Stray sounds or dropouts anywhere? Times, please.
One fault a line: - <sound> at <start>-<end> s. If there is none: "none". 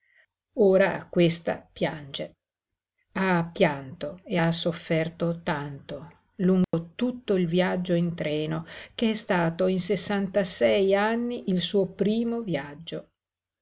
- dropout at 6.6-6.7 s